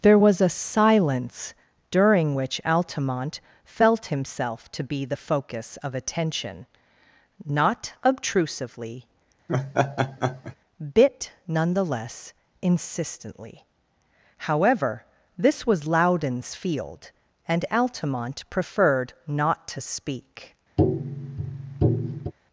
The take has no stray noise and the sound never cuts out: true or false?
false